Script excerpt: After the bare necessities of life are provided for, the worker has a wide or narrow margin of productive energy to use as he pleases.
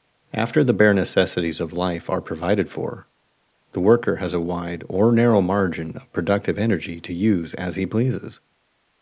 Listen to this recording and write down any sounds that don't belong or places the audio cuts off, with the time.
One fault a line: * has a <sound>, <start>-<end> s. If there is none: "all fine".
all fine